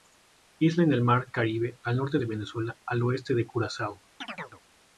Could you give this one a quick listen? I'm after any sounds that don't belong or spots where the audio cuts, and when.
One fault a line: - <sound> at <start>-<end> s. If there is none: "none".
- chirp at 4.2-4.6 s